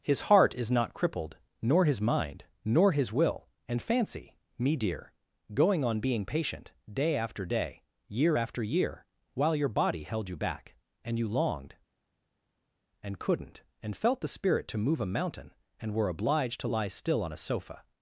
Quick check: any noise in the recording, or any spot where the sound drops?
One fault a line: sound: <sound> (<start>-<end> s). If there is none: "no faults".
no faults